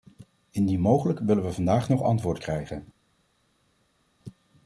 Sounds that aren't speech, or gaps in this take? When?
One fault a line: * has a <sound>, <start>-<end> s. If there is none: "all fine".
all fine